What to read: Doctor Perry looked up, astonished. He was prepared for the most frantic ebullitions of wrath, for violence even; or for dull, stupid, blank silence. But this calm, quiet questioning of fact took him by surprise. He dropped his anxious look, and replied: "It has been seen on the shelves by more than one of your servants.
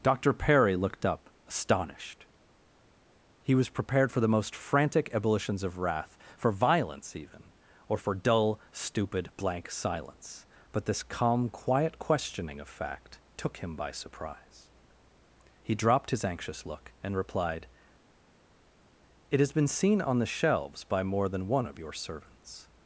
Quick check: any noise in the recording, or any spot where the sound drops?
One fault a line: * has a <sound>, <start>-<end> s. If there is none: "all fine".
all fine